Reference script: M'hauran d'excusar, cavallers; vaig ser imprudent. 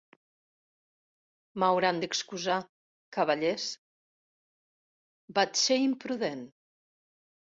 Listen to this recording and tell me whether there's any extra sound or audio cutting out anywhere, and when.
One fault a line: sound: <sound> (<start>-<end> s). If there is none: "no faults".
no faults